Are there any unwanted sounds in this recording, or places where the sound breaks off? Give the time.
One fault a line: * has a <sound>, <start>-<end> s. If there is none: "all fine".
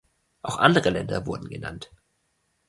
all fine